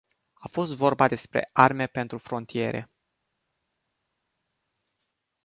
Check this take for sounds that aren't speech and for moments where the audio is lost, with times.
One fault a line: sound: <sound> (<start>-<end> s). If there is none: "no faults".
no faults